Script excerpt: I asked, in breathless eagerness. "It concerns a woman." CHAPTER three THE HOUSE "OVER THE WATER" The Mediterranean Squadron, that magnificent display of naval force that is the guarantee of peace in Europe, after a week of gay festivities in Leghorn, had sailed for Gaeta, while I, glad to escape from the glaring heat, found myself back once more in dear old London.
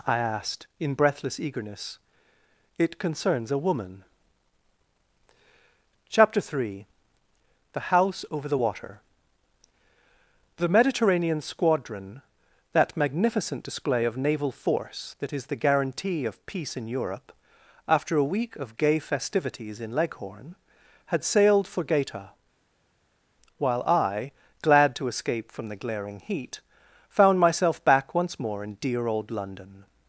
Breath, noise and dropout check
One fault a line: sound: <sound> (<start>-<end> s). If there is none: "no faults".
no faults